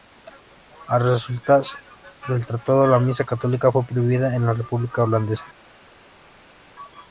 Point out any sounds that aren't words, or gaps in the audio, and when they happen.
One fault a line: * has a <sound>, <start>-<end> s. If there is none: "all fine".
all fine